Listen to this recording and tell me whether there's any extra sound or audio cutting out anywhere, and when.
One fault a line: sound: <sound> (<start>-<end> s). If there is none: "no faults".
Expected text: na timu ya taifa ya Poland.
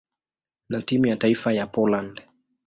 no faults